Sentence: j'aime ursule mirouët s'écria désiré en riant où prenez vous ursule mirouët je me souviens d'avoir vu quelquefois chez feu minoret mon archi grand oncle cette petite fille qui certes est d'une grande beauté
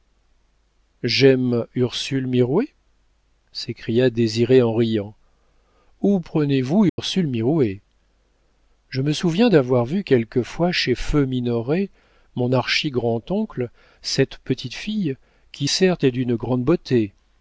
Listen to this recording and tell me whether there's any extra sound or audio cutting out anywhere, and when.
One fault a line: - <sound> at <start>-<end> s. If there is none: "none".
- dropout at 6.9-7.0 s